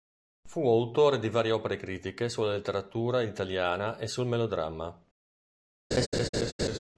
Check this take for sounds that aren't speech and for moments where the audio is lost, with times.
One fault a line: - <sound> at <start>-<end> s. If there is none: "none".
- laugh at 5.9-6.8 s